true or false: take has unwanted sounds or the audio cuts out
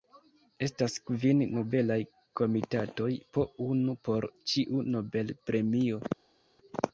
false